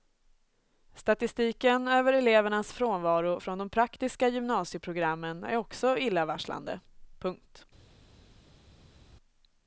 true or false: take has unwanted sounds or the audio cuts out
false